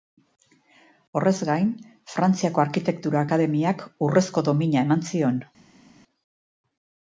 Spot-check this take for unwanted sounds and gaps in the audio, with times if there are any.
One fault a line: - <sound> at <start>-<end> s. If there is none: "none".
none